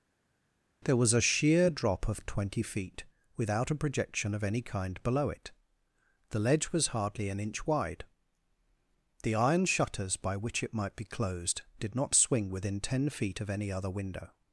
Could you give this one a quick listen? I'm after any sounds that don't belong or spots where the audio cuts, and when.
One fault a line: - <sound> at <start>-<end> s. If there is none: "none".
none